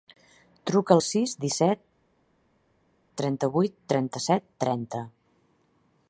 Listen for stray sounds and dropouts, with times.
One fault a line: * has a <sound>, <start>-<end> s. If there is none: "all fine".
all fine